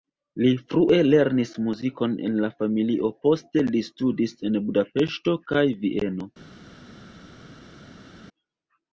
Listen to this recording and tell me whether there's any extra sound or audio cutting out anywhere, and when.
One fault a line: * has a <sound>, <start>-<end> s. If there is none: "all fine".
all fine